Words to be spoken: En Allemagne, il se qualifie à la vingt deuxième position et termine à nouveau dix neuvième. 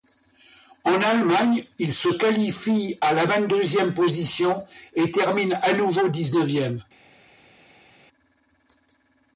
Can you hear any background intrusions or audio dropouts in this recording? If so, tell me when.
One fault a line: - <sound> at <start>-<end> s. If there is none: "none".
none